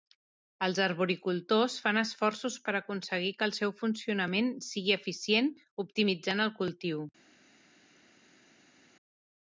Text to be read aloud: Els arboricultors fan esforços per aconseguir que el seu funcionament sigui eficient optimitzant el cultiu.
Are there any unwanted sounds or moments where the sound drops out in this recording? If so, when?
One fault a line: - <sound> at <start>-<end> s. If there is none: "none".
none